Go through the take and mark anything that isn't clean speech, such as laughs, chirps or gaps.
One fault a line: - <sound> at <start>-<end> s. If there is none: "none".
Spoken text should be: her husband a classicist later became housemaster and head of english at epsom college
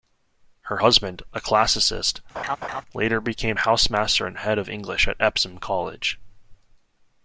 - laugh at 2.3-2.8 s